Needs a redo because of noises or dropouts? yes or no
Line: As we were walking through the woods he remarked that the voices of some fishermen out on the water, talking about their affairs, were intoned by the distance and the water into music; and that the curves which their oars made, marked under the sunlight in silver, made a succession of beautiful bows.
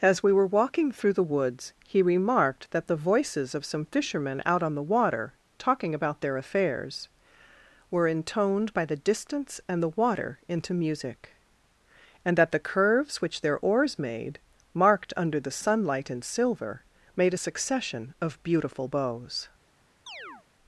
yes